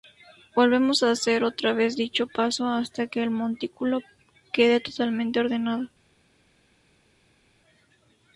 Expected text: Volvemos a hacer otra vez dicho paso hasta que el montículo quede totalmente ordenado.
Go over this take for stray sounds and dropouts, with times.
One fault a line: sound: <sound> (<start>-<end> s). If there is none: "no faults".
no faults